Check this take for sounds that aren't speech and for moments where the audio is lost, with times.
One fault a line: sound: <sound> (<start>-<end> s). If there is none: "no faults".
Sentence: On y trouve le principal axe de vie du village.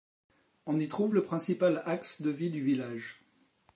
no faults